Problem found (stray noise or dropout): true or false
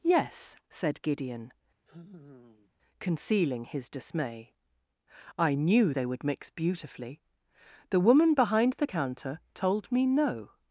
true